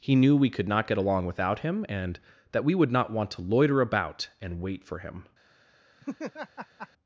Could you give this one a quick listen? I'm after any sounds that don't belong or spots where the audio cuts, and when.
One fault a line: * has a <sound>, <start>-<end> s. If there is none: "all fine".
* has a laugh, 6.0-6.9 s